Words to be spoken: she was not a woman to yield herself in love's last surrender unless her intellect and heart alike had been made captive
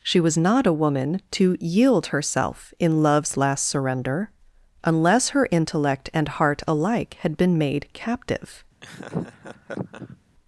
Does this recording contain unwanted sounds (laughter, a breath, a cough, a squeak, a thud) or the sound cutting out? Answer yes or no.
yes